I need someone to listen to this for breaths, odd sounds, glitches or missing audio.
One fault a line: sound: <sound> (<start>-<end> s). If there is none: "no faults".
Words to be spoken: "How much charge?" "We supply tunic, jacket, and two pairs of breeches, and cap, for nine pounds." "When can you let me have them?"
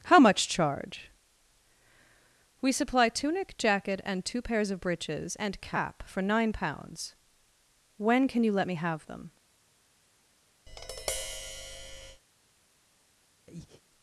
sound: tap (10.7-12.2 s)
sound: breath (13.5-13.8 s)